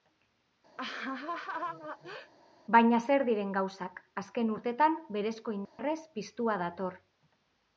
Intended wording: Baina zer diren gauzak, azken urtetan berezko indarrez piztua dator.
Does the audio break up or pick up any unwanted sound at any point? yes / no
yes